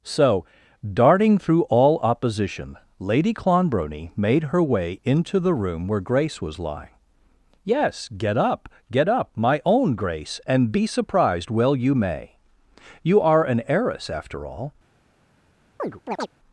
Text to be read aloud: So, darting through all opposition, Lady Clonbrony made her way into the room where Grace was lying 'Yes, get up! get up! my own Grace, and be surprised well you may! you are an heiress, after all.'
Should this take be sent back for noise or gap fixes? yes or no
yes